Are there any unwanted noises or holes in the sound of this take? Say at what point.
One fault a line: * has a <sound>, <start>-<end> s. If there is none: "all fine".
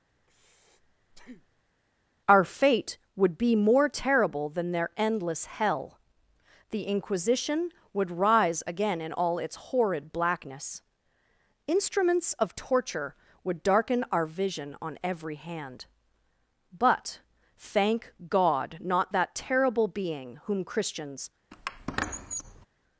* has a breath, 0.2-1.7 s
* has a squeak, 21.5-22.7 s